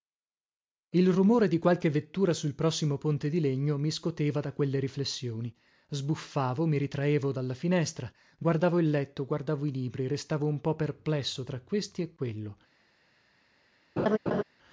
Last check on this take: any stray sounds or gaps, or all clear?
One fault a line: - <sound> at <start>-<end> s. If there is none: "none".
- laugh at 14.0-14.4 s